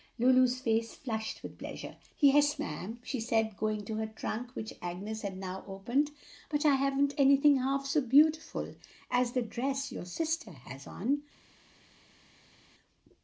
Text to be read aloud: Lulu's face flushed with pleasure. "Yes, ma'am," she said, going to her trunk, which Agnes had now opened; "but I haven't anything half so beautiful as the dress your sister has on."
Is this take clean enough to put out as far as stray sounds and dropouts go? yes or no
yes